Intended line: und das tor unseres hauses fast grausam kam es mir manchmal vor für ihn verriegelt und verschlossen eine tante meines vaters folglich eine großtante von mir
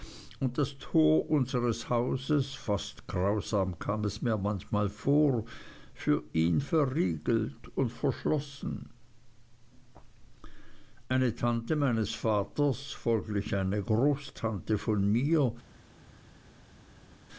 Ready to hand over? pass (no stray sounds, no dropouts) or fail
pass